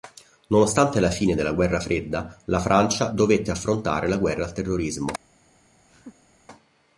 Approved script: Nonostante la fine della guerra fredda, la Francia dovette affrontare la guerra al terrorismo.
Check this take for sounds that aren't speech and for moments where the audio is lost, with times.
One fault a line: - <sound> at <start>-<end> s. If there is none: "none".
- laugh at 5.9-6.3 s